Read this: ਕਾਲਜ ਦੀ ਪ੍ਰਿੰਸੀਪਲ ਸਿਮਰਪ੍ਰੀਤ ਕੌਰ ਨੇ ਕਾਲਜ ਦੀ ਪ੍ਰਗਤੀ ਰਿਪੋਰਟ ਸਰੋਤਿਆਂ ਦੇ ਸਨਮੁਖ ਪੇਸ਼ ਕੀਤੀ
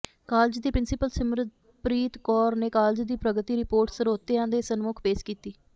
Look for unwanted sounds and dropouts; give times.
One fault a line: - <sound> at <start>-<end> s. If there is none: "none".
none